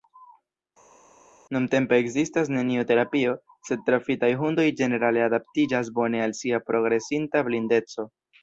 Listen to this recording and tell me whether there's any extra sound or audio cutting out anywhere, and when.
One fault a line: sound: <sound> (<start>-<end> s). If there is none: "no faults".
no faults